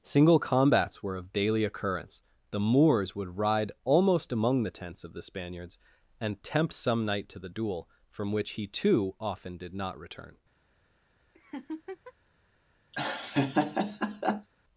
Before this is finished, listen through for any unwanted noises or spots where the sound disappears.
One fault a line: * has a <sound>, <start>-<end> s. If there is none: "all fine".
* has a laugh, 11.3-12.1 s
* has a laugh, 12.9-14.5 s